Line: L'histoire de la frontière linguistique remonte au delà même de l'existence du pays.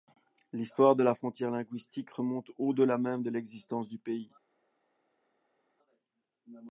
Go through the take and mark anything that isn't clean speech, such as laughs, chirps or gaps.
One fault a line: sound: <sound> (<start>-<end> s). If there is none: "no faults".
no faults